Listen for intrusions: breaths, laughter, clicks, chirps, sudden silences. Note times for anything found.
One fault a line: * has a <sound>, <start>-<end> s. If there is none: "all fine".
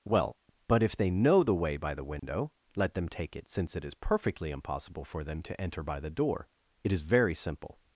* has a dropout, 2.2-2.2 s